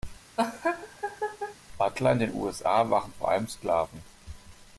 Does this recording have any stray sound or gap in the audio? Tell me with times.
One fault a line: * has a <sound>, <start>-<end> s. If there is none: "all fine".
* has a laugh, 0.4-1.6 s